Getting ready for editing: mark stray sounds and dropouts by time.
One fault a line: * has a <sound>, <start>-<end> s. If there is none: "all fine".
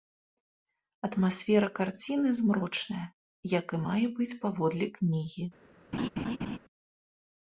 * has a laugh, 5.9-6.6 s